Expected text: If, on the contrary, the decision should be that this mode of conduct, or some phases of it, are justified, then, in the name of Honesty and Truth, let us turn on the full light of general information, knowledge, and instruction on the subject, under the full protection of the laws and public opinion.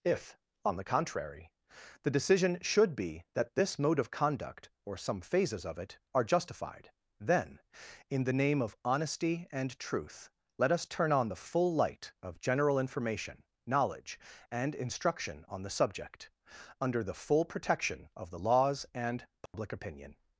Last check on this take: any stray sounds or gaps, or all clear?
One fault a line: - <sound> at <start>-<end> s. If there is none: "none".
- dropout at 19.5-19.5 s